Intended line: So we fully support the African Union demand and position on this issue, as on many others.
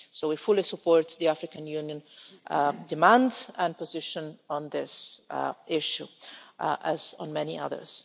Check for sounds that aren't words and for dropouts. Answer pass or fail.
pass